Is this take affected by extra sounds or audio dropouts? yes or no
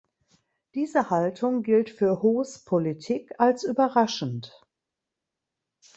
no